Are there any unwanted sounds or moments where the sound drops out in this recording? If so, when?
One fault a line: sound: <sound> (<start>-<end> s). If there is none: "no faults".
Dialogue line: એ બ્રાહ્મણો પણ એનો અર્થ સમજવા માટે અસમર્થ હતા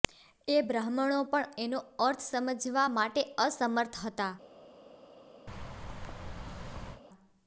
sound: thud (5.5-7.0 s)